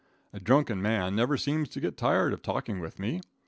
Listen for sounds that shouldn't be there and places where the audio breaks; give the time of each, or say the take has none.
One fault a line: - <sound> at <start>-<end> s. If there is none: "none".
none